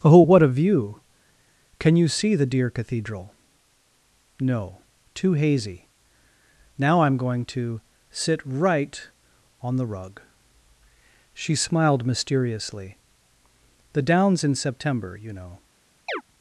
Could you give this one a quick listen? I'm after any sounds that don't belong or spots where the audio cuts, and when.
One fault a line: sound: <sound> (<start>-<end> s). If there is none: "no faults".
sound: chirp (16.1-16.2 s)